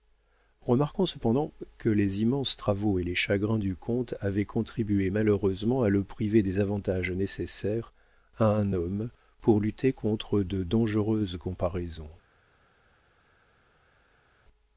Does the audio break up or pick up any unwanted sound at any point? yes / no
no